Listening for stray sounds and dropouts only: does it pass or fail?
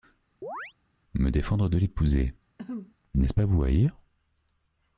fail